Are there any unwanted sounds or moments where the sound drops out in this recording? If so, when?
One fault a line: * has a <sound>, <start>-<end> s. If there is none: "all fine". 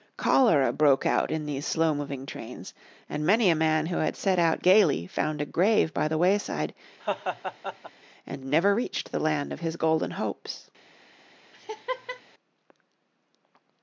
* has a laugh, 7.0-7.9 s
* has a laugh, 11.5-12.2 s